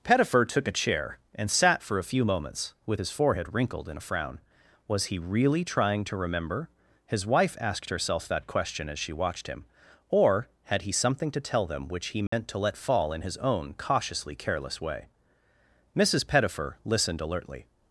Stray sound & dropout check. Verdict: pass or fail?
fail